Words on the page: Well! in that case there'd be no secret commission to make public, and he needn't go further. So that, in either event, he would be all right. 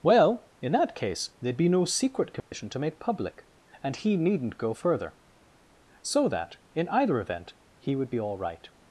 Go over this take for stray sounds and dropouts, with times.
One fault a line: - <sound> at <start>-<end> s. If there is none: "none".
- dropout at 2.4-2.5 s